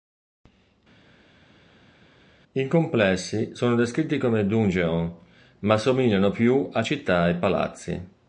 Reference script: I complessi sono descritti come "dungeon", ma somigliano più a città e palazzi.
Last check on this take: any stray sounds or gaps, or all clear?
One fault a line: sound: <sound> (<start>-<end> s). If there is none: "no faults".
no faults